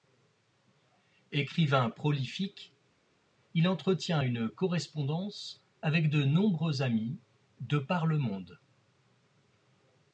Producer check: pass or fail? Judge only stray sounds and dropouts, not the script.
pass